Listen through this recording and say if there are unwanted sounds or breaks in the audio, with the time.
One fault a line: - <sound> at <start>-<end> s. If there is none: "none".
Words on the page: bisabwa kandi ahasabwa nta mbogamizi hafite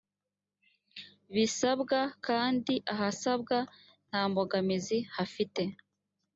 none